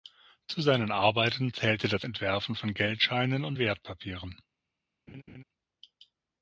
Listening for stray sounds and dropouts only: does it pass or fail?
fail